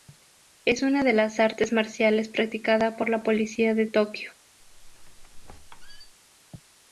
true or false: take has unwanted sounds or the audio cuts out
true